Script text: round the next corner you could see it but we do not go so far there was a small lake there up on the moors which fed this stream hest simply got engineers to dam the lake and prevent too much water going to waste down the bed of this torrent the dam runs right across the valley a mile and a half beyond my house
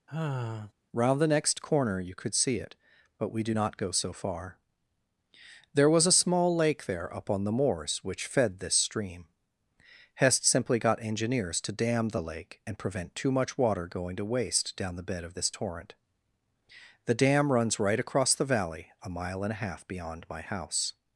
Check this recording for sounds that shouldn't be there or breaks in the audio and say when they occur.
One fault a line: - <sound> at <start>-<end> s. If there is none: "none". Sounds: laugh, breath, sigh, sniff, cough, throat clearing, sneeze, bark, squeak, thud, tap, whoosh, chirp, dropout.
- sigh at 0.1-0.7 s